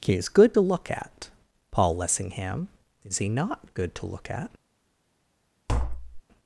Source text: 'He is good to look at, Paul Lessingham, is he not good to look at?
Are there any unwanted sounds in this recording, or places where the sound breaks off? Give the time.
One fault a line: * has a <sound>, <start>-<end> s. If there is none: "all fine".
* has a tap, 5.7-6.2 s